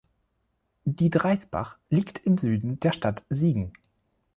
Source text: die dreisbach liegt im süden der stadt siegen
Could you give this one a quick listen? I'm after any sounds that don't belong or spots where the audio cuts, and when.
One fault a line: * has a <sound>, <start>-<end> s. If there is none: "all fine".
all fine